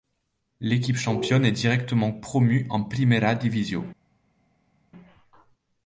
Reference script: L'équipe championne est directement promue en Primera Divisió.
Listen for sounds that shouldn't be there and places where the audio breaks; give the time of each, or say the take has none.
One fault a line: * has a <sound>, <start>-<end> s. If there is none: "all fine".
all fine